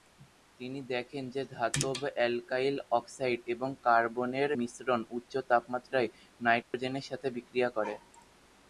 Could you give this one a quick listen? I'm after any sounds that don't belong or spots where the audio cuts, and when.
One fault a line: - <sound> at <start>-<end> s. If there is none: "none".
- dropout at 6.6-6.7 s